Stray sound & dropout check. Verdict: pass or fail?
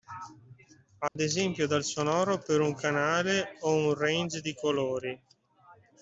fail